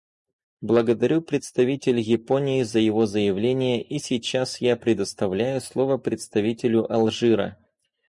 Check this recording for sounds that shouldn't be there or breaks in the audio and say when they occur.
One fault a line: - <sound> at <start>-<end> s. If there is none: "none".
none